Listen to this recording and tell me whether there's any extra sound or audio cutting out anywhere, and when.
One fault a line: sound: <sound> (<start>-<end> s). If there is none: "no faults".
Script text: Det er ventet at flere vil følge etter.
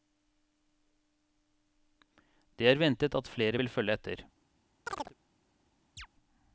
sound: chirp (4.9-5.1 s)
sound: chirp (6.0-6.1 s)